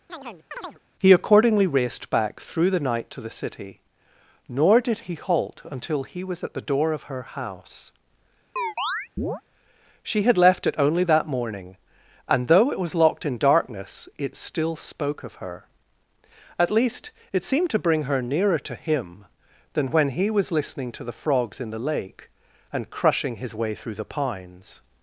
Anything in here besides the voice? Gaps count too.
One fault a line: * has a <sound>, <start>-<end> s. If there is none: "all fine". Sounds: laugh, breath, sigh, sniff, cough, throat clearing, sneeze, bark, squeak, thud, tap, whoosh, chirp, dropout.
* has a chirp, 0.1-0.8 s
* has a chirp, 8.6-9.4 s